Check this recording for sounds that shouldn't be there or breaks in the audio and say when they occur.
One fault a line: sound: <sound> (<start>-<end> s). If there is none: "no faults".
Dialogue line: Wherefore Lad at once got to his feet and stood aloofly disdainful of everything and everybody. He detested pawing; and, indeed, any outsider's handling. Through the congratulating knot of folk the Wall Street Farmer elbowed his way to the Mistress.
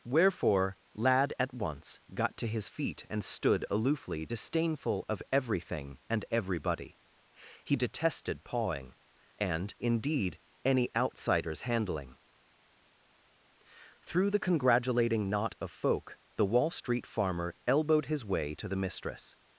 no faults